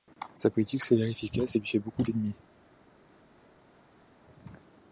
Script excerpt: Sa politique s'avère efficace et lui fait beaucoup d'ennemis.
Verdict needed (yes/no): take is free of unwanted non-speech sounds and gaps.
yes